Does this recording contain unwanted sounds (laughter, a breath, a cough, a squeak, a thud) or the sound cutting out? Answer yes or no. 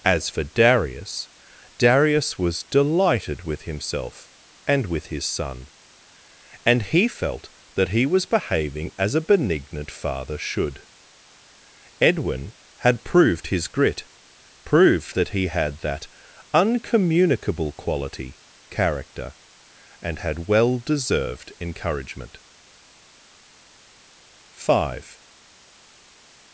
no